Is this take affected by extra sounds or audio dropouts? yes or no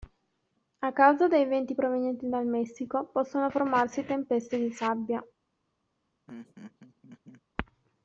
yes